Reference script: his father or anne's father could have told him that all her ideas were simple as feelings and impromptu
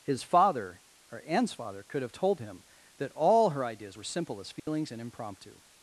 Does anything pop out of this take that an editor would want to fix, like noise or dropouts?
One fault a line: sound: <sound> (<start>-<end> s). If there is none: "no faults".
sound: dropout (4.6-4.7 s)